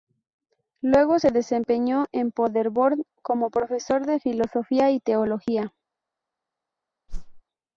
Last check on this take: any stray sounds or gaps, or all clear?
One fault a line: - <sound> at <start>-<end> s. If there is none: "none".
- whoosh at 7.1-7.4 s